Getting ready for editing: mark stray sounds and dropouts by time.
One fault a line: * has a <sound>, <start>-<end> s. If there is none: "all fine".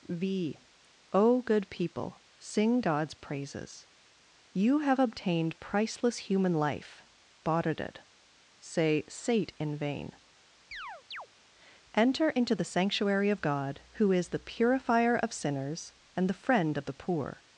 * has a chirp, 10.7-11.3 s